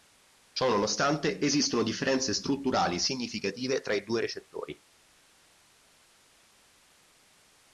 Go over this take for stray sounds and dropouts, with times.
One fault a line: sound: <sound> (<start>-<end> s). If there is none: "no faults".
no faults